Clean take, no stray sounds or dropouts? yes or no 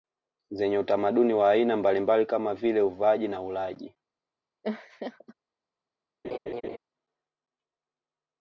no